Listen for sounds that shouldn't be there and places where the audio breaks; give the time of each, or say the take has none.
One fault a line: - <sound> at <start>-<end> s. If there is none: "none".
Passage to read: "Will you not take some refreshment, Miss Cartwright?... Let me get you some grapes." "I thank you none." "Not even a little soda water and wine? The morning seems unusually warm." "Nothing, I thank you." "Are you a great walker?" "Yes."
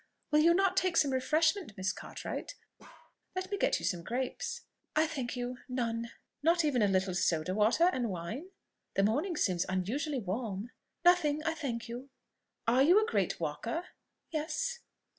- bark at 2.8-3.2 s